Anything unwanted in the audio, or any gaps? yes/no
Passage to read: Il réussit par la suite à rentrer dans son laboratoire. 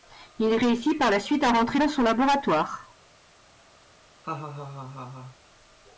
yes